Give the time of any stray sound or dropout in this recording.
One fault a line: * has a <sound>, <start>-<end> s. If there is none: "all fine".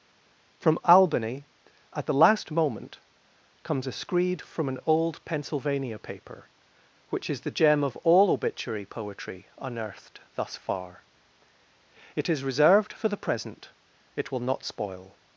all fine